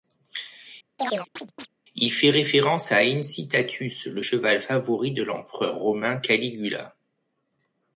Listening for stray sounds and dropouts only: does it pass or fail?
fail